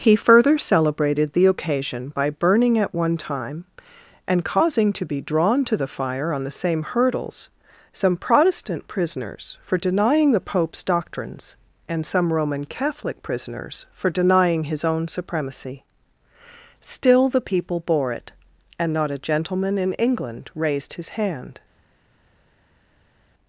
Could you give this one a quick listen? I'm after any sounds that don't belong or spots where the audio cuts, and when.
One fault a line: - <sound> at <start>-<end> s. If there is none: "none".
none